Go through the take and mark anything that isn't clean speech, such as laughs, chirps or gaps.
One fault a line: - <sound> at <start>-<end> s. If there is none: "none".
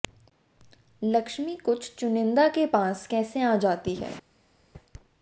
none